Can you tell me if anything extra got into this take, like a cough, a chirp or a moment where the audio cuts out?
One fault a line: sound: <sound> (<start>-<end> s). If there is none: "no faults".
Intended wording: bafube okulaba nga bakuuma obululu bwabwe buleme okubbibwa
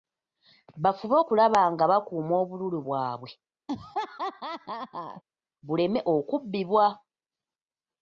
sound: laugh (3.7-5.2 s)